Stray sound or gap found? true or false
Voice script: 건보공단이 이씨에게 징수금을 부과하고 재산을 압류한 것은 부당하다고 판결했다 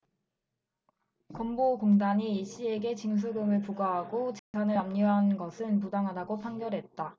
true